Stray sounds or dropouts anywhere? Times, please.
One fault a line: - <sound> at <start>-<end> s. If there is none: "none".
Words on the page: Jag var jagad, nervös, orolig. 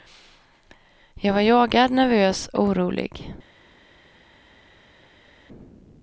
none